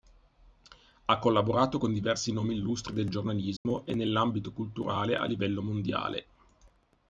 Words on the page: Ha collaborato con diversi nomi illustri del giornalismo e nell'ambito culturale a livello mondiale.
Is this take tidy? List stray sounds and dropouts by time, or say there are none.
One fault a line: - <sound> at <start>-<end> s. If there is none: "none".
- dropout at 3.6-3.7 s